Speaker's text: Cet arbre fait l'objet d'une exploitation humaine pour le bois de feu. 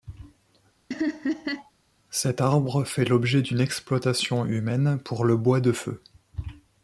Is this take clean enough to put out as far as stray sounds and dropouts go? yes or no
no